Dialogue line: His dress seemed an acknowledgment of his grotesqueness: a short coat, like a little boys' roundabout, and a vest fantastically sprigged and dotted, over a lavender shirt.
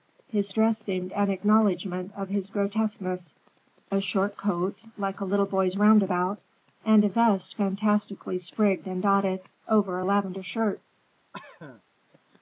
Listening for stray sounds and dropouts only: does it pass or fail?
fail